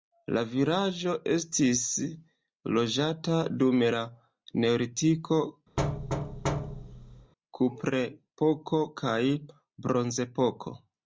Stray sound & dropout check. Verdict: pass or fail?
fail